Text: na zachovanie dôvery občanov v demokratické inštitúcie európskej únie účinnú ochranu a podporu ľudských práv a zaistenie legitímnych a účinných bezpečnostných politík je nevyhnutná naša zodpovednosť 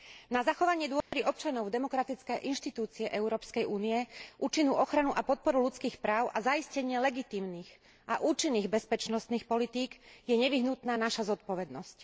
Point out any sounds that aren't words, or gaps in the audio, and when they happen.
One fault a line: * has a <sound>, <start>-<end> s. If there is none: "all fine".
* has a dropout, 1.0-1.1 s